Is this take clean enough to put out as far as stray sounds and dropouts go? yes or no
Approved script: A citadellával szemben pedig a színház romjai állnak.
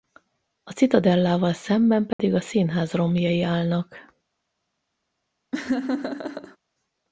no